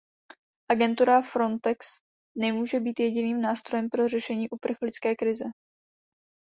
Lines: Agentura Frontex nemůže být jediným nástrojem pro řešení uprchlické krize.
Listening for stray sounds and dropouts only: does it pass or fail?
pass